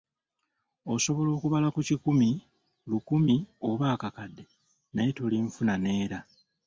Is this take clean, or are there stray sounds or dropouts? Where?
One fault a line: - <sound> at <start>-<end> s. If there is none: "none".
none